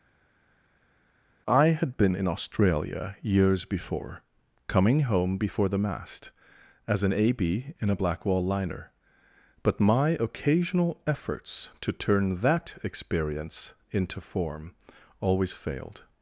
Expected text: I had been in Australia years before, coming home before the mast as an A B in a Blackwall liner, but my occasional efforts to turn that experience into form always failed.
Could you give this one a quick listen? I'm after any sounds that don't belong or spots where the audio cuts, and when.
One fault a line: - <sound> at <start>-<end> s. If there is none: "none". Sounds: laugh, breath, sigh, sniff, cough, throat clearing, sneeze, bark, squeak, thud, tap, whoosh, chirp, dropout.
none